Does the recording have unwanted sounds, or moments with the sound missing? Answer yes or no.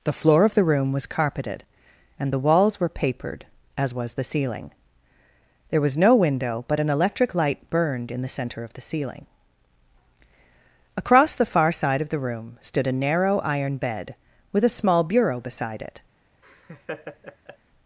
yes